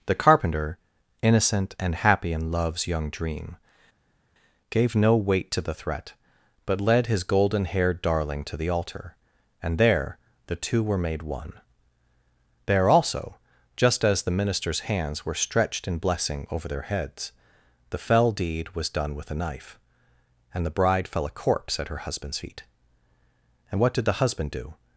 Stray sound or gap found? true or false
false